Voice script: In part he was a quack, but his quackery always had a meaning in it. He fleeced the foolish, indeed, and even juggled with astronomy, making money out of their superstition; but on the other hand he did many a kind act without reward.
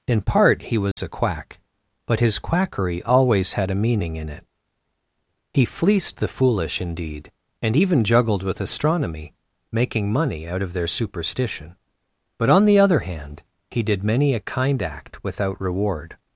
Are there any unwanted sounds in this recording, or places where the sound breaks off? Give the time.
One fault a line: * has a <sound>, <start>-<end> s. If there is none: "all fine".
* has a dropout, 0.9-1.0 s